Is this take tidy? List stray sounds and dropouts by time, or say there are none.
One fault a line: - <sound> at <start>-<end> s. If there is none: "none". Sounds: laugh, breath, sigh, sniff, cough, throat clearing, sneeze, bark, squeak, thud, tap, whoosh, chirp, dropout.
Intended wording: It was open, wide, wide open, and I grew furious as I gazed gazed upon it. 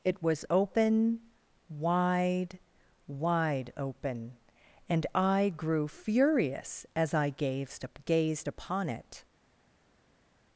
none